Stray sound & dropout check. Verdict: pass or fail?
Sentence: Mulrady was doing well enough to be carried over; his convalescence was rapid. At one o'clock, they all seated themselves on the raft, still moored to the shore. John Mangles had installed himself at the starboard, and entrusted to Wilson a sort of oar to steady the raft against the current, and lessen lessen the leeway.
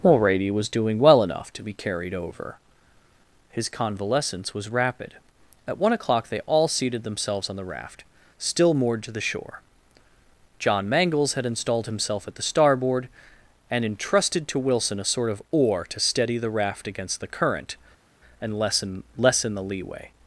pass